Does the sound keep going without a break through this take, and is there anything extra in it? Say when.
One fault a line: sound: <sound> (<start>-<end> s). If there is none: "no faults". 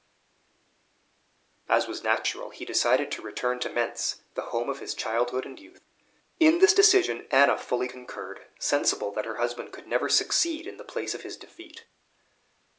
no faults